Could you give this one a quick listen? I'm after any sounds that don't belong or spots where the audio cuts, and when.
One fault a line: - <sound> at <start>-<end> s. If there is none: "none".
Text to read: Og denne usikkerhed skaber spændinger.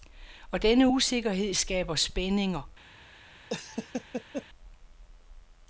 - laugh at 3.5-4.5 s